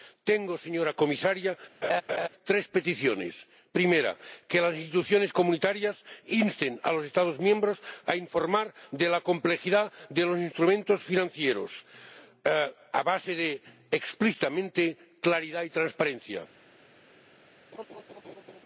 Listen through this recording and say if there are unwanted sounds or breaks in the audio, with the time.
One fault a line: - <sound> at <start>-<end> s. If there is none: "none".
- laugh at 1.8-2.3 s
- laugh at 17.7-18.6 s